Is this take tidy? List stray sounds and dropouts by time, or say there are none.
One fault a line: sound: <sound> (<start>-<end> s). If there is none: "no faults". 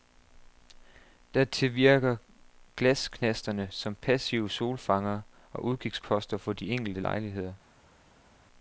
no faults